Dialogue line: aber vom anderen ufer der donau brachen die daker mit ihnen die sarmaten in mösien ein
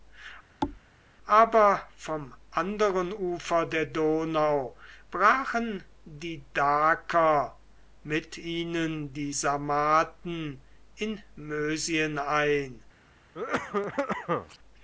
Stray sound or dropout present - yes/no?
yes